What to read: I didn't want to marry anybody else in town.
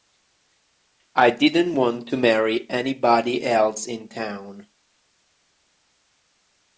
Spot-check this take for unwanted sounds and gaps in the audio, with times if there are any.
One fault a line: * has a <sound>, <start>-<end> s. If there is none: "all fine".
all fine